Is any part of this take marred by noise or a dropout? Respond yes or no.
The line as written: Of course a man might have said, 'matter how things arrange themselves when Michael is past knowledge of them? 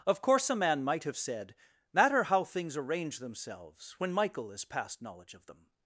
no